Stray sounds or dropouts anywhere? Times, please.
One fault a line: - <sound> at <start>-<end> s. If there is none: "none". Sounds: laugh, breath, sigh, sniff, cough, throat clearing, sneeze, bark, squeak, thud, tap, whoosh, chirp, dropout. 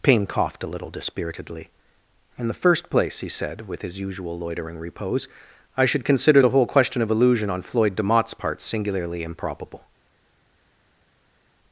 none